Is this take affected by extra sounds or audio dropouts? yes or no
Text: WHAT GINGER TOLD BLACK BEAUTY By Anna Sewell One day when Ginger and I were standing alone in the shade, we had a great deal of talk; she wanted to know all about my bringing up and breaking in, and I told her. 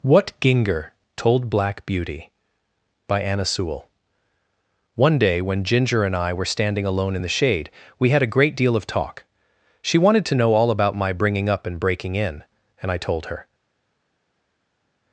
no